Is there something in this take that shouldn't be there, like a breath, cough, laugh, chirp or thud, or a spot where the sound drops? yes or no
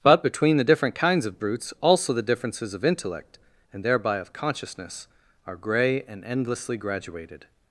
no